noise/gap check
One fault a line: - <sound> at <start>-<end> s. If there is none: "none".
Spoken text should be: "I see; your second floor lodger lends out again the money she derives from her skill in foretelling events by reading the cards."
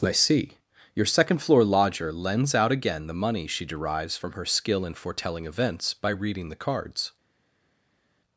none